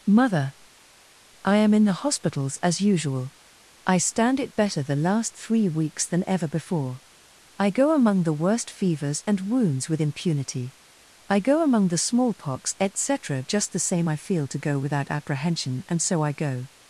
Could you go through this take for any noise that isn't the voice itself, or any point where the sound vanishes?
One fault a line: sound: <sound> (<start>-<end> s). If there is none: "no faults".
no faults